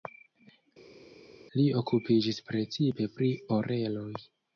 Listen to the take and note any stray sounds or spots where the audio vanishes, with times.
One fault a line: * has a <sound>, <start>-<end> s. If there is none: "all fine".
all fine